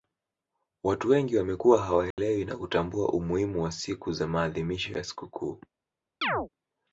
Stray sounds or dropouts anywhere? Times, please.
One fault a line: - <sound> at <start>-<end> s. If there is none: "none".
- dropout at 2.1-2.2 s
- chirp at 6.2-6.5 s